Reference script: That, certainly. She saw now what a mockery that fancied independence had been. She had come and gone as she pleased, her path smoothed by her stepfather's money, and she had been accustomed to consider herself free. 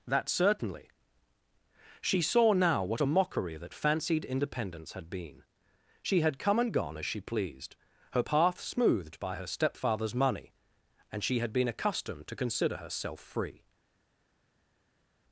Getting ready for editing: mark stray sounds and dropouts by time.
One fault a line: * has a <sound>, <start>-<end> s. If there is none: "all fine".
all fine